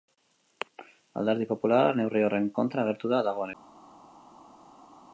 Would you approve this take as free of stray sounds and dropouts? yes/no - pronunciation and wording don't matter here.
yes